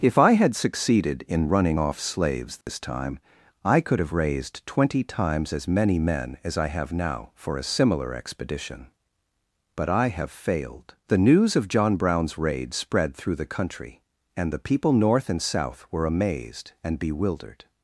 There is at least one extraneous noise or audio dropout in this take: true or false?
true